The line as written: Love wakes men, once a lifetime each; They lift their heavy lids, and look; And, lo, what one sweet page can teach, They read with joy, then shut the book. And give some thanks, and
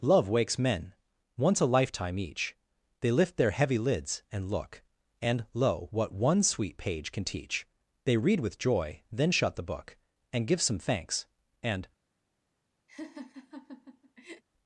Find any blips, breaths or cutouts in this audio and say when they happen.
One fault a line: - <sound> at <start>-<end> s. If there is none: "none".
- laugh at 12.9-14.4 s